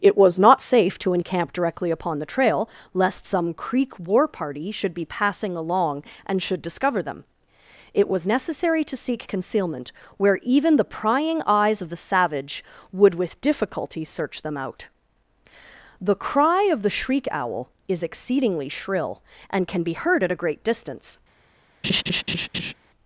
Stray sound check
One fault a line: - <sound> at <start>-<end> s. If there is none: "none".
- laugh at 21.8-22.7 s